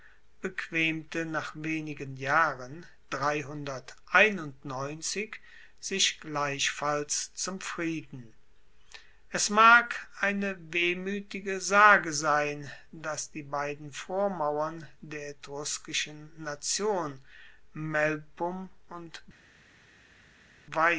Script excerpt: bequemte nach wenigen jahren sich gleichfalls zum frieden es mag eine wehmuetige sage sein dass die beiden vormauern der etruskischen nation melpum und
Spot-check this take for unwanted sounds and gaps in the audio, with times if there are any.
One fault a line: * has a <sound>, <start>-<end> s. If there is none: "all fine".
all fine